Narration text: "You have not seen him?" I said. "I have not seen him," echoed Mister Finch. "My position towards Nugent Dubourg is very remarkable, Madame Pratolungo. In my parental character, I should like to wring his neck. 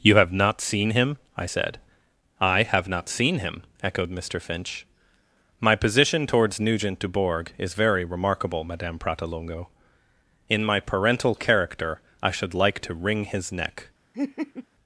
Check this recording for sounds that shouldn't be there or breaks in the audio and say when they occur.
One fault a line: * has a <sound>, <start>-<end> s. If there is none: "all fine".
* has a laugh, 14.1-14.7 s